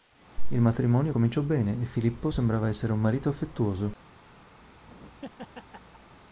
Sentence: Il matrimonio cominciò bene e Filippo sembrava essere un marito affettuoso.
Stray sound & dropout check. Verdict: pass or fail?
fail